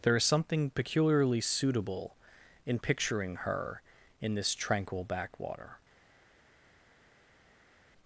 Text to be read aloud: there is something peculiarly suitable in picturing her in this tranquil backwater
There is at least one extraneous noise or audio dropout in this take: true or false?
false